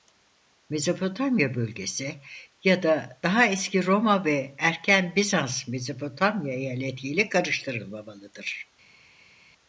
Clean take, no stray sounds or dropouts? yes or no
yes